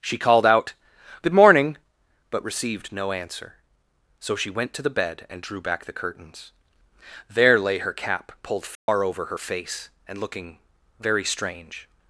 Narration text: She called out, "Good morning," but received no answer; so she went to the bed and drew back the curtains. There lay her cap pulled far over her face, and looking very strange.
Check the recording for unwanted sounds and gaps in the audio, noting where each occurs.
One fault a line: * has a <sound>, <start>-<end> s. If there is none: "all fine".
* has a dropout, 8.7-8.9 s